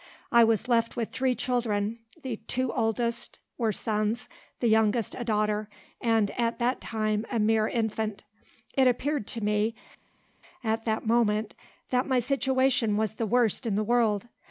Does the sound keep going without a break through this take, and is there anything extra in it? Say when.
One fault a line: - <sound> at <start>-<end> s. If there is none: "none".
none